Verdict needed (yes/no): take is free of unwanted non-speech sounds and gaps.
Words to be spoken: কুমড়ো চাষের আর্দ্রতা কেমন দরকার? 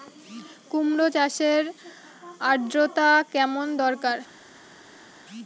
yes